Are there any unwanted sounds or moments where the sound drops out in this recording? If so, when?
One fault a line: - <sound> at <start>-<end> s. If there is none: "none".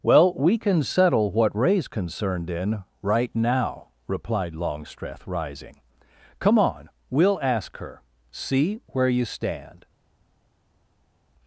none